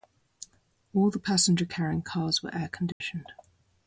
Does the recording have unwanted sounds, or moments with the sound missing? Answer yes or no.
yes